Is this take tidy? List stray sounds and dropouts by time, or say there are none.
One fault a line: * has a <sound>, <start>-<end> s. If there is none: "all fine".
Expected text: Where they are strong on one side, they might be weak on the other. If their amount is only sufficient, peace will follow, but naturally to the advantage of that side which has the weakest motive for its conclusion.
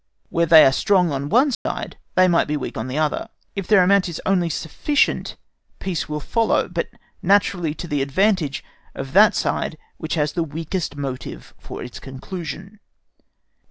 * has a dropout, 1.5-1.7 s